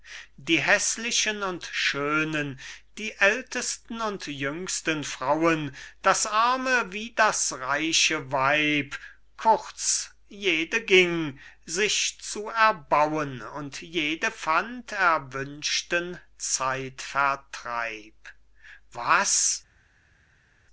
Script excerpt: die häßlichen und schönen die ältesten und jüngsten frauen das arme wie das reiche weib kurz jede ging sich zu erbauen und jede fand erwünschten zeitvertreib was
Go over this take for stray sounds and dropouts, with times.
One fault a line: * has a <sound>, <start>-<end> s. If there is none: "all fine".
all fine